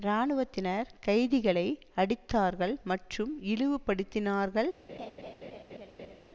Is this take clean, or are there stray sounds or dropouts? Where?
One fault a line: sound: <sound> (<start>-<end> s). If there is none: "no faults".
sound: laugh (4.9-6.2 s)